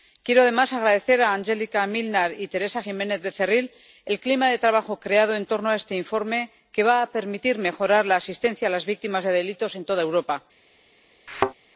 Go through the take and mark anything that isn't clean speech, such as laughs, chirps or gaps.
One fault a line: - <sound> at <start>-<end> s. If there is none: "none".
- thud at 11.3-11.5 s